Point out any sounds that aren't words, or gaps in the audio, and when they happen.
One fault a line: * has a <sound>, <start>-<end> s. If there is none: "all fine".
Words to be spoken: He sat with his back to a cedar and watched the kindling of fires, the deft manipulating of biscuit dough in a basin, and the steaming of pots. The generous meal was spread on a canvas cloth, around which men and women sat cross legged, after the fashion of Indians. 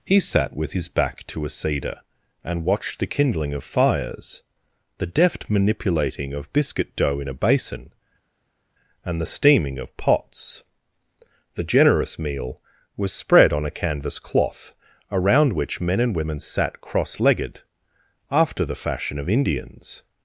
all fine